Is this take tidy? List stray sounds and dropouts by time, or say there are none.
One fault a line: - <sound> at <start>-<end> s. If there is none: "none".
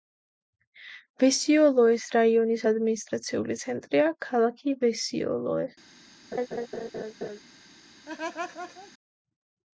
- laugh at 6.3-7.4 s
- laugh at 8.1-8.9 s